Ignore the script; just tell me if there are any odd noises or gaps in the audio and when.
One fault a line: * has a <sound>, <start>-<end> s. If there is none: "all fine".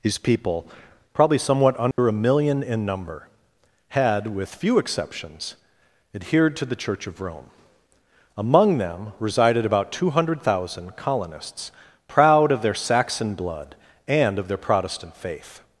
* has a dropout, 1.9-2.0 s